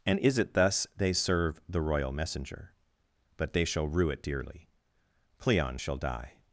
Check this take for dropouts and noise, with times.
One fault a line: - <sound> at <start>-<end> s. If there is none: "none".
none